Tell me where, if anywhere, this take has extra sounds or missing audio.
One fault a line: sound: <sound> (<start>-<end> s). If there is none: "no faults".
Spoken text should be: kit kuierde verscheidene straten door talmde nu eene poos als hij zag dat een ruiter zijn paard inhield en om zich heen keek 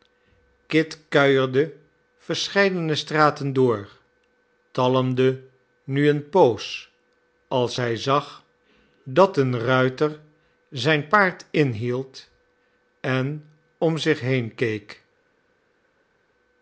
no faults